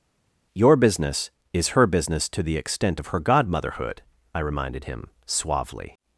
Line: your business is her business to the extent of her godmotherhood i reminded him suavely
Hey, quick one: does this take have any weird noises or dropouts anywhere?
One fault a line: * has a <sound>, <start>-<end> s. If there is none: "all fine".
all fine